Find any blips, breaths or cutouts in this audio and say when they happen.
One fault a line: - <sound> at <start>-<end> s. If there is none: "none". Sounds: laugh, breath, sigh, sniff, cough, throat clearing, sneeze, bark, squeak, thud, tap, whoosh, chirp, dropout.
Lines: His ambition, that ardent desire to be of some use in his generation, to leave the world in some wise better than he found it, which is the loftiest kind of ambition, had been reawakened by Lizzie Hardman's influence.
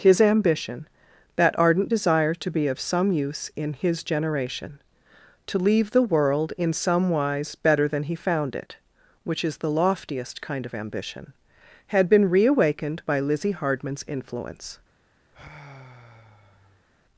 - sigh at 15.3-16.9 s